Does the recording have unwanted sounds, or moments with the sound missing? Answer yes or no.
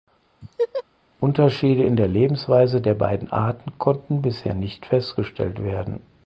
yes